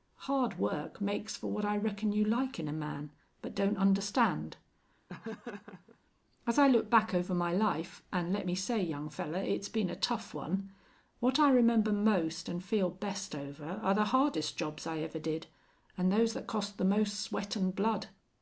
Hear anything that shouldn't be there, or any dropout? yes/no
yes